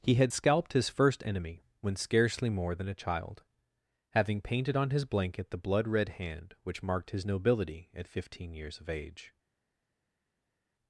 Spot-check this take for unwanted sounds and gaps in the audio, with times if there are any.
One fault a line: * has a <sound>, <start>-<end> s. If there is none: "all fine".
all fine